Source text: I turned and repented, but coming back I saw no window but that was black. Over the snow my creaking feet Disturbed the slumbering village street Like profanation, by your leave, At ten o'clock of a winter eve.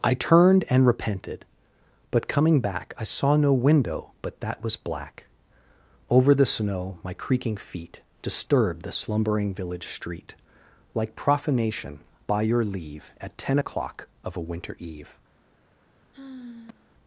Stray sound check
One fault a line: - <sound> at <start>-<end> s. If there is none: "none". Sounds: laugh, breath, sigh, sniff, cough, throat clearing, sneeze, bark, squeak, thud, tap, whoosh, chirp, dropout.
- sigh at 16.1-16.9 s